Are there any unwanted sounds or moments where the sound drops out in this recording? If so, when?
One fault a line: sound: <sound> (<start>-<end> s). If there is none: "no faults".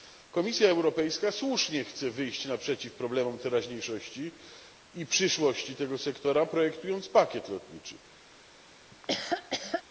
sound: laugh (8.9-9.8 s)